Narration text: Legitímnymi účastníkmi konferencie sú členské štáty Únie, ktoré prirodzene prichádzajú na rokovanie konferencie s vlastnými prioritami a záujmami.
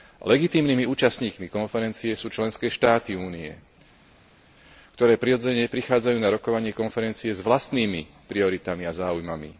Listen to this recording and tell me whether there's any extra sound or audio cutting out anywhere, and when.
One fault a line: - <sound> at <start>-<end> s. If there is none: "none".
none